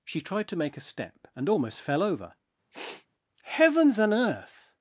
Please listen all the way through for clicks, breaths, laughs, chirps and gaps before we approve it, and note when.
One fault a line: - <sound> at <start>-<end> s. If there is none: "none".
- sniff at 2.7-3.1 s